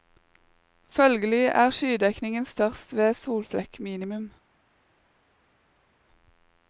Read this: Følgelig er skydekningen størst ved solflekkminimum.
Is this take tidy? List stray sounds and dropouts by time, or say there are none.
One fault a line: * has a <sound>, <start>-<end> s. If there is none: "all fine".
all fine